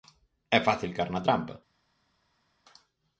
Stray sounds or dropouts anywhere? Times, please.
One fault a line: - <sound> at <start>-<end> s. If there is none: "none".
none